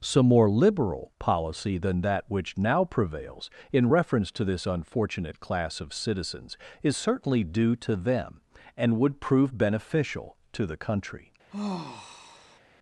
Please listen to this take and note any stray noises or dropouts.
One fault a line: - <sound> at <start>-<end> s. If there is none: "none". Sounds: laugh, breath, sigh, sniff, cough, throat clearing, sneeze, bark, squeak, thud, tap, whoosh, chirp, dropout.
- sigh at 11.5-12.6 s